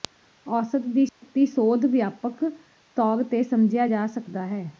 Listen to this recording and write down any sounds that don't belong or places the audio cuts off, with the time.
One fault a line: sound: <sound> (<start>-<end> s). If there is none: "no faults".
sound: dropout (1.1-1.2 s)